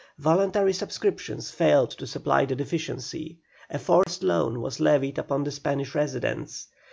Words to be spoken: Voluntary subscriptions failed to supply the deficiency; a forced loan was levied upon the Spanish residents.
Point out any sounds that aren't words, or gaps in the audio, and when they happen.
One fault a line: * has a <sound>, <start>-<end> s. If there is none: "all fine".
* has a dropout, 4.0-4.1 s